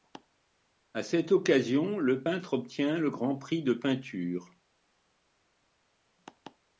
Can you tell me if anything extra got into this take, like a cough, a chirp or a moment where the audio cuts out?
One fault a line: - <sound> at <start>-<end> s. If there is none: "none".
none